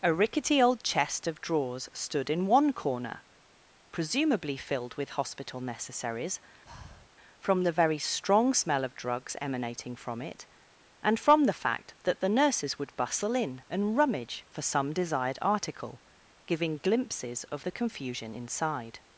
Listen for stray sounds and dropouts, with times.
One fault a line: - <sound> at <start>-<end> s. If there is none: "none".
- breath at 6.7-7.1 s